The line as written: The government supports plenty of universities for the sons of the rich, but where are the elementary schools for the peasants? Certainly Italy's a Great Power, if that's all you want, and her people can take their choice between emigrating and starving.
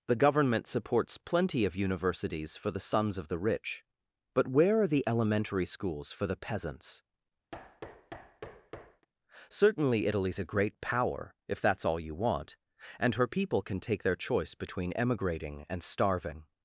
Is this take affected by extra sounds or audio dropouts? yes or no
yes